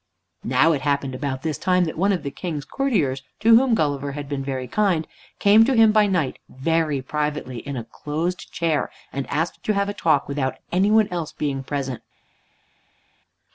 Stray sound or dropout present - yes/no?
no